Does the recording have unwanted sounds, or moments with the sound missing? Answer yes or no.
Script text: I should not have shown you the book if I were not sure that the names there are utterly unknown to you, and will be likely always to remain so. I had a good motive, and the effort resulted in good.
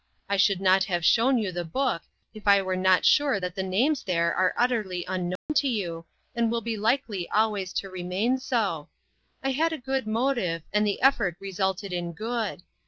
yes